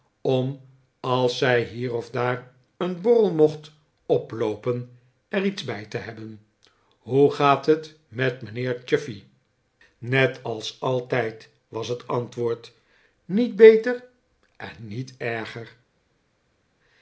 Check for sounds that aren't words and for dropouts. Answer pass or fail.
pass